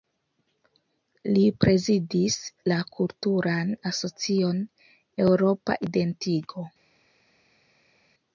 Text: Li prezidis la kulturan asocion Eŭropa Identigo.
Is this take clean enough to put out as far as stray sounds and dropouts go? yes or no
yes